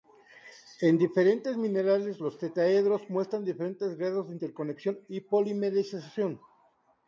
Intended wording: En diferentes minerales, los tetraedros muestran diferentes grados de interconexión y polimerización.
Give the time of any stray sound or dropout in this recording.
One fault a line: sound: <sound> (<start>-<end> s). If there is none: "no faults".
no faults